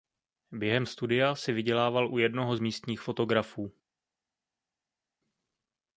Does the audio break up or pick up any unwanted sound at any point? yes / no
no